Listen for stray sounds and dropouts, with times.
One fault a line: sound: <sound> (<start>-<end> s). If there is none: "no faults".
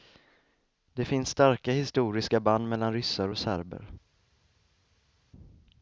no faults